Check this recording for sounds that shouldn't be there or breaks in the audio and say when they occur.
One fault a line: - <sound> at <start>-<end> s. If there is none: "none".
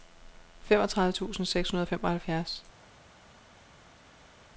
none